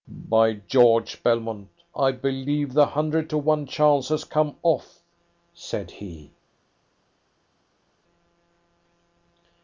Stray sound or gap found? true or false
false